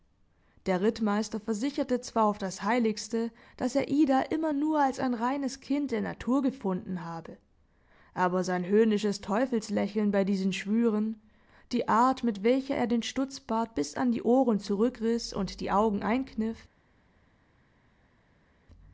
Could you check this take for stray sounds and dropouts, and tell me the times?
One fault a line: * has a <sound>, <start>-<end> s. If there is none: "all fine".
all fine